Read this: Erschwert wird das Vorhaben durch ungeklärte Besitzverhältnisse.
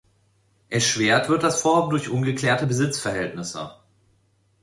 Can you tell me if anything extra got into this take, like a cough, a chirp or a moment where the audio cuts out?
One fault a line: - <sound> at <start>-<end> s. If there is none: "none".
none